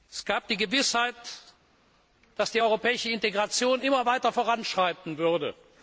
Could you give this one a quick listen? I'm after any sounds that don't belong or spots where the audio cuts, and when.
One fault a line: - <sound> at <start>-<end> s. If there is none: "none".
none